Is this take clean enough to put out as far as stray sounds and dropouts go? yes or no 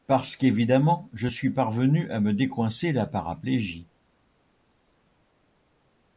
yes